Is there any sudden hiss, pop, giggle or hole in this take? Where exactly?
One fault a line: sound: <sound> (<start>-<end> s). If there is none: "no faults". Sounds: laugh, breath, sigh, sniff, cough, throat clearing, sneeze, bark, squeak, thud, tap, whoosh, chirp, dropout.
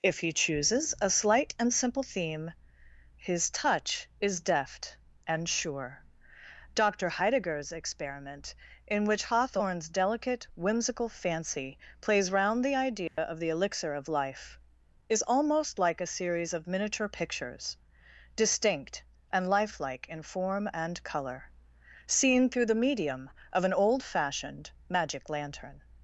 sound: dropout (13.1-13.2 s)